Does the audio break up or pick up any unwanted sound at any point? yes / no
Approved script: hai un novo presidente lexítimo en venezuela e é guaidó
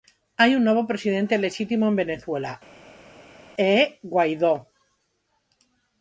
no